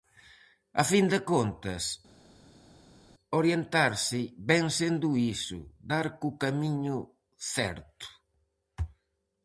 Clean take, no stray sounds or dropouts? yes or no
yes